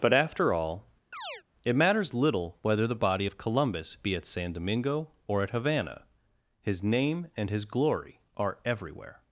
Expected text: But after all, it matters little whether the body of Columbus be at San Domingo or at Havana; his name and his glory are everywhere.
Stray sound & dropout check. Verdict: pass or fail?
fail